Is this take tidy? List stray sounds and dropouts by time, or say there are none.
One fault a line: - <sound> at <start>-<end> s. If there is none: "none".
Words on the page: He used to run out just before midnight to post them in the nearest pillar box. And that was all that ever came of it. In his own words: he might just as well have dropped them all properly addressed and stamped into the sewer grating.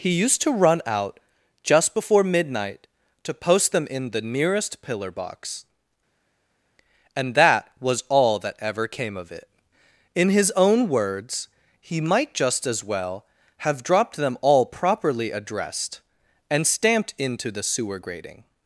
none